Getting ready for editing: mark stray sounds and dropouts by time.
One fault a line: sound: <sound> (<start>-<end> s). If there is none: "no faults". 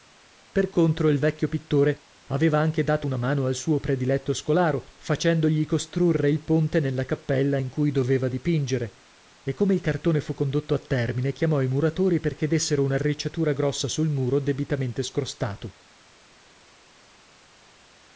no faults